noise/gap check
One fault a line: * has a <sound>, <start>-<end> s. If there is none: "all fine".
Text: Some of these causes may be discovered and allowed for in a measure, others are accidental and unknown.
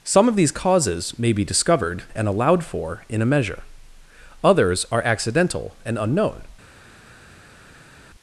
all fine